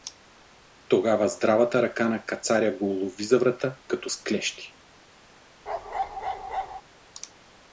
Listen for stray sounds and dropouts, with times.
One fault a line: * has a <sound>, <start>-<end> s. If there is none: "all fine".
* has a bark, 5.7-6.8 s